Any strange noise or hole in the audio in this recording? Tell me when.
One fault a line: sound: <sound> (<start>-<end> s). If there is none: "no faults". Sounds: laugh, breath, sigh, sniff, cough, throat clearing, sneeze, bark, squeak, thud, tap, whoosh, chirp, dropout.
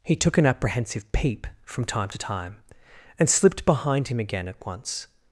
no faults